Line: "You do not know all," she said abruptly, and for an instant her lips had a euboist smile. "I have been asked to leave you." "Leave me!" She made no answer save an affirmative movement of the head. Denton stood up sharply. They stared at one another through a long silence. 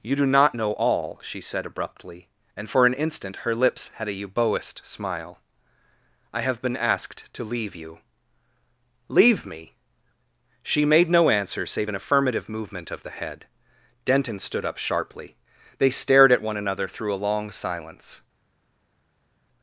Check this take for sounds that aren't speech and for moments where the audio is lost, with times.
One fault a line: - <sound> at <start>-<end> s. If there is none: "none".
none